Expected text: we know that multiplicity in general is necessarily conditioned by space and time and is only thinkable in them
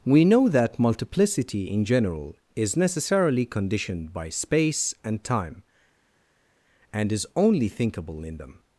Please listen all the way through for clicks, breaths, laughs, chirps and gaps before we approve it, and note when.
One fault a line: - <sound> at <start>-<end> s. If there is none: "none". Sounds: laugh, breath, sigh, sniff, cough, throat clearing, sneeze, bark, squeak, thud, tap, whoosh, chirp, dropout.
none